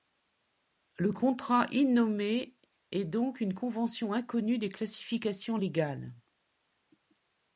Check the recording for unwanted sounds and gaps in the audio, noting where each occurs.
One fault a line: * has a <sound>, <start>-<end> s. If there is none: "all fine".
all fine